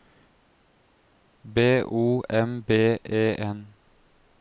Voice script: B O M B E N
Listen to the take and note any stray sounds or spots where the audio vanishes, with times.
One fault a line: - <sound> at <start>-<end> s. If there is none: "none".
none